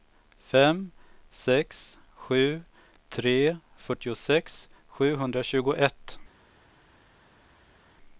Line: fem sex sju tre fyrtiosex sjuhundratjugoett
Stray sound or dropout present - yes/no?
no